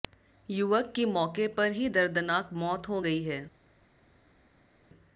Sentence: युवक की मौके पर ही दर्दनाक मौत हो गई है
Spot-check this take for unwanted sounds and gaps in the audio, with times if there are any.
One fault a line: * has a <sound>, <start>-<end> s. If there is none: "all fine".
all fine